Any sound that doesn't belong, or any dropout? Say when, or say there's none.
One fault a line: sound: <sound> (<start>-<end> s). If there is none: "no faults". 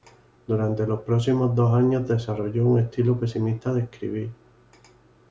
no faults